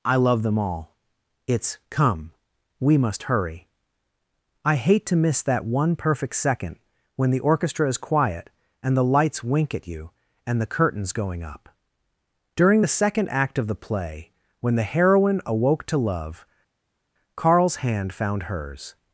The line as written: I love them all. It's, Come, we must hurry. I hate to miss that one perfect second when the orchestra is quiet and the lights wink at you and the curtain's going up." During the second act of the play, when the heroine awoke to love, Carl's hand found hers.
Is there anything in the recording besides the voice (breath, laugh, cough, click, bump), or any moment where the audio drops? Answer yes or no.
no